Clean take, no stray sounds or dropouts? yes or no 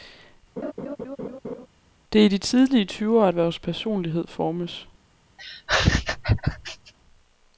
no